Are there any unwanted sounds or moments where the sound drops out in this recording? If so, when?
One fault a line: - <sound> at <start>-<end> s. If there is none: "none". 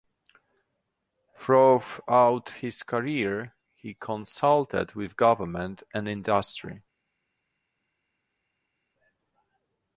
none